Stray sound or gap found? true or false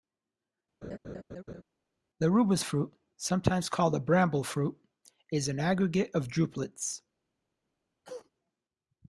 true